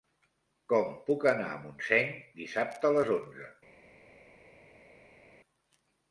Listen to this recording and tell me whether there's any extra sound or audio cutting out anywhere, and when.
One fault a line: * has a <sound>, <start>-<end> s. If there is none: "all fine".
all fine